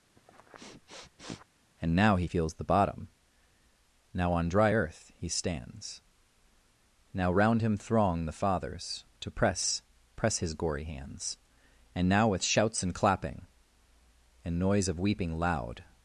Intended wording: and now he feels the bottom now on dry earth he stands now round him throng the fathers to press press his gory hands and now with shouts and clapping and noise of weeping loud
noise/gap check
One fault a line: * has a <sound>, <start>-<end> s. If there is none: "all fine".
* has a sniff, 0.2-1.5 s